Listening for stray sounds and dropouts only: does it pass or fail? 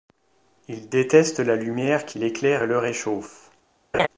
fail